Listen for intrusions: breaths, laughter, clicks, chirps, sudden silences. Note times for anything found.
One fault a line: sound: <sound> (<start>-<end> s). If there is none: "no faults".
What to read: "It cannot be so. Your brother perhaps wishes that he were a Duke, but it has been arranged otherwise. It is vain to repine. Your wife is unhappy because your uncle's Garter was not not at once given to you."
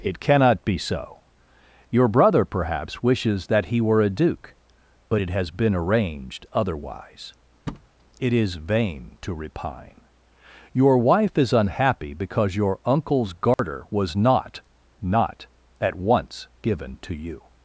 sound: thud (7.7-7.9 s)
sound: dropout (13.5-13.6 s)